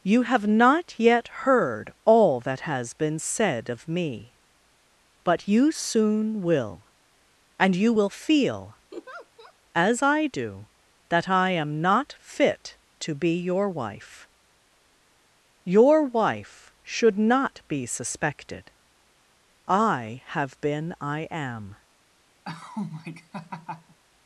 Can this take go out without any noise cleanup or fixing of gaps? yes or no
no